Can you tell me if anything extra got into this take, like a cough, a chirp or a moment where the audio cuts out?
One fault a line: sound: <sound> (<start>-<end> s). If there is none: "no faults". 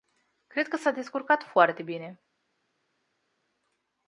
no faults